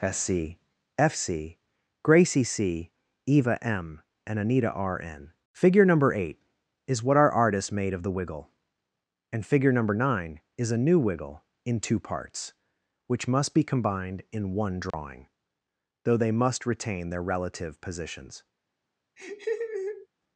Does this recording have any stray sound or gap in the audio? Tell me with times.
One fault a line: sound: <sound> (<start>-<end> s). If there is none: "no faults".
sound: dropout (14.9-14.9 s)
sound: laugh (19.2-20.1 s)